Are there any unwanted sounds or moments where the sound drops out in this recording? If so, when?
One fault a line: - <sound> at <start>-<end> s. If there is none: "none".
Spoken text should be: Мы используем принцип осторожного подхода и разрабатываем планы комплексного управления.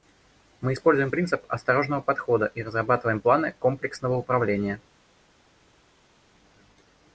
none